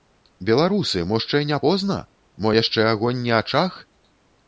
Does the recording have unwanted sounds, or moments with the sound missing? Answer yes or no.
no